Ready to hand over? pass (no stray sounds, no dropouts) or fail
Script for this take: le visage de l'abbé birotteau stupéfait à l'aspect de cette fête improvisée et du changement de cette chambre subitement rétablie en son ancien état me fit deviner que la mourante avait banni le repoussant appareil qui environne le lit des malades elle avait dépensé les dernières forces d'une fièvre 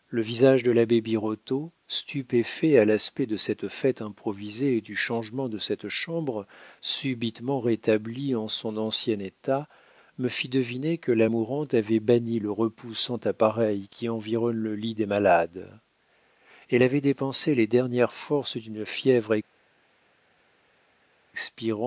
pass